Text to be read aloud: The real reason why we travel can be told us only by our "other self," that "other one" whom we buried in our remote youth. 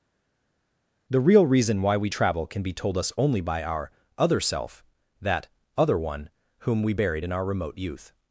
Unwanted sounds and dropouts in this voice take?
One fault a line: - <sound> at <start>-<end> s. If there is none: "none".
none